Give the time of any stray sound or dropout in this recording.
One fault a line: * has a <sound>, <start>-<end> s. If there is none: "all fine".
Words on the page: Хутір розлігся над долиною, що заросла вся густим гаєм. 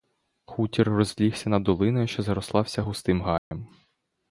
* has a dropout, 3.4-3.5 s